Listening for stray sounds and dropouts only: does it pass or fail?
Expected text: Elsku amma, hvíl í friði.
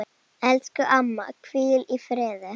pass